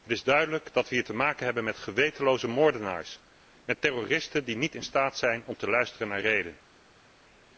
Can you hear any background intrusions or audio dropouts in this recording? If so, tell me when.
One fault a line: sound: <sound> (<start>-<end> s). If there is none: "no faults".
no faults